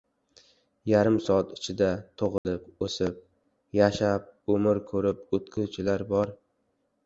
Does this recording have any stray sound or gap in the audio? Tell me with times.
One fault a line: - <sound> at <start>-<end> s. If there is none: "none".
- dropout at 2.4-2.4 s